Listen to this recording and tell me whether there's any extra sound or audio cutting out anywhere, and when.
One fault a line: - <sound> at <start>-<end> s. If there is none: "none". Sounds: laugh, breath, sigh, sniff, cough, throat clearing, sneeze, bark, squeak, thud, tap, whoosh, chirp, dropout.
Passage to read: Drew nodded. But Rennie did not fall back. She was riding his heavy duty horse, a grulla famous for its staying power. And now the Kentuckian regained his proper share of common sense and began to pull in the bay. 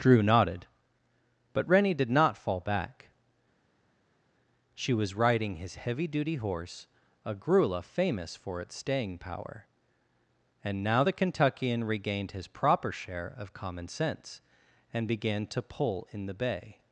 none